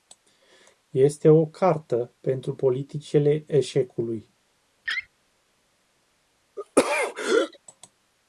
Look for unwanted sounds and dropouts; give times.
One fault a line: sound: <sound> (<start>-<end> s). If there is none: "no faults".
sound: laugh (4.8-5.1 s)
sound: throat clearing (6.6-7.6 s)